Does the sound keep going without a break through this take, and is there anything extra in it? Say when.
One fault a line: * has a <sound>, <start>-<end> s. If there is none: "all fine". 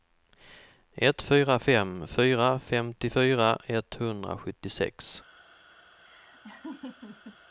* has a laugh, 6.1-7.4 s